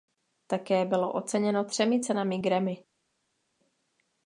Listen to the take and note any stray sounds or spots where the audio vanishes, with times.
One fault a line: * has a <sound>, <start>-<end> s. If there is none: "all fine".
all fine